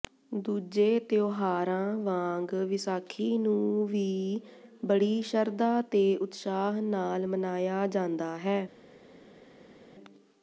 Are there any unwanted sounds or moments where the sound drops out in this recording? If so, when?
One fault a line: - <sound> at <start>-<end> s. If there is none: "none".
none